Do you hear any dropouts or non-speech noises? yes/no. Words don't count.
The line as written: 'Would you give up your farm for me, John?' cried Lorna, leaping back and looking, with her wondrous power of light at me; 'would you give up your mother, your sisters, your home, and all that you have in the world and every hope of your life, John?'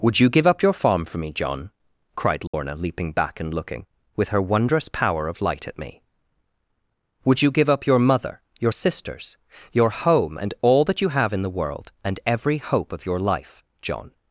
yes